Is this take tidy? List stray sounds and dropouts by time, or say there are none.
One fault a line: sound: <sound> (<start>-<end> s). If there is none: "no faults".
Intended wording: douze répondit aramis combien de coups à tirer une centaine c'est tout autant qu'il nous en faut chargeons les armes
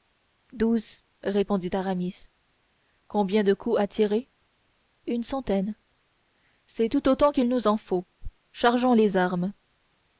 no faults